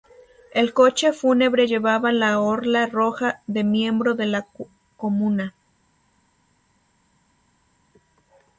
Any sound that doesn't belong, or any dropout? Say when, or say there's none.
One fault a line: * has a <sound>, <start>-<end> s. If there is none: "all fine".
all fine